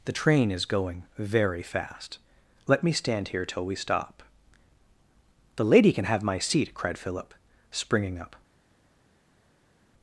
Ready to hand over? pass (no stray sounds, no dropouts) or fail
pass